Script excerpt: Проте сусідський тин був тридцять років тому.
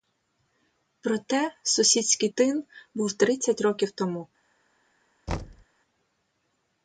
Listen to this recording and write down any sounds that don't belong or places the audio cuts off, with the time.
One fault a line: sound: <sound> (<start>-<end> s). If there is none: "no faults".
sound: thud (5.3-5.7 s)